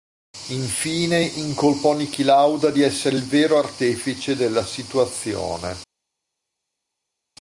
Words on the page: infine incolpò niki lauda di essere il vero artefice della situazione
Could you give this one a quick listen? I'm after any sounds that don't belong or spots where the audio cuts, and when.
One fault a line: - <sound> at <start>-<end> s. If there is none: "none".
none